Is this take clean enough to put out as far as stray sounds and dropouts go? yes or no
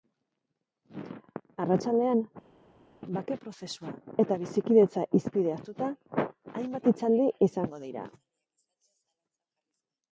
yes